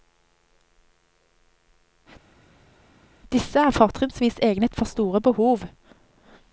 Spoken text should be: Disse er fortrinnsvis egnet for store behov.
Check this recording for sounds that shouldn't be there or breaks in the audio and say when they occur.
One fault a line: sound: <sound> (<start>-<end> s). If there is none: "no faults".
no faults